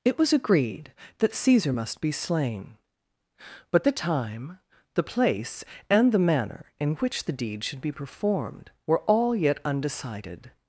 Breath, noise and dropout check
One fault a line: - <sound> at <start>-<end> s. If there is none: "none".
none